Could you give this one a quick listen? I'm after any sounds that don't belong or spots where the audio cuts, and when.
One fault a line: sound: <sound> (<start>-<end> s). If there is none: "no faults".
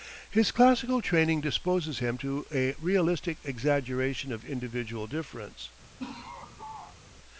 sound: laugh (6.0-7.0 s)